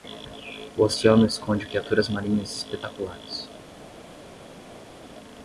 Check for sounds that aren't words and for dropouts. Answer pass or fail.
pass